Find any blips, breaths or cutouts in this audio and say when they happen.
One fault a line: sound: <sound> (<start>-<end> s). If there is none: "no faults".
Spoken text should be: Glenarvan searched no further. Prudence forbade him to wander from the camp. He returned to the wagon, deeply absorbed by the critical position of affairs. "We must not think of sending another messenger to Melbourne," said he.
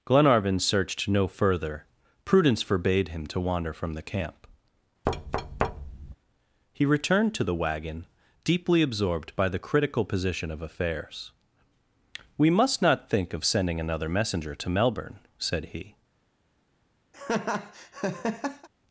sound: thud (5.1-6.2 s)
sound: laugh (17.1-18.7 s)